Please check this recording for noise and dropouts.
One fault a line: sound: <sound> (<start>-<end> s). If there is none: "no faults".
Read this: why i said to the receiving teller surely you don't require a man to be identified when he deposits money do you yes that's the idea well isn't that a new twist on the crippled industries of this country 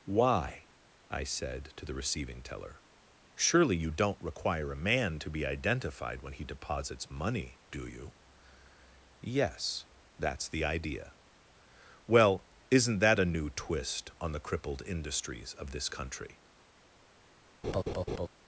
sound: laugh (17.6-18.3 s)